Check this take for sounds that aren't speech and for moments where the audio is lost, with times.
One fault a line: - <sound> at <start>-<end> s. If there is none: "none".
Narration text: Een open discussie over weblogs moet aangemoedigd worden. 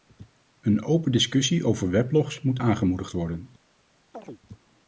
- chirp at 4.1-4.4 s